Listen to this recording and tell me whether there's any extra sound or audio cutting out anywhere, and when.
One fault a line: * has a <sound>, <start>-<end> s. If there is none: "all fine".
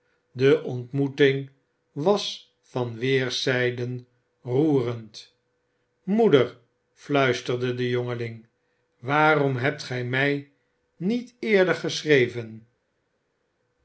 all fine